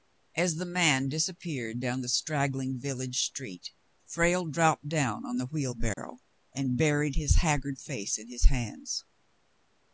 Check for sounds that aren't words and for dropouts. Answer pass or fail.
fail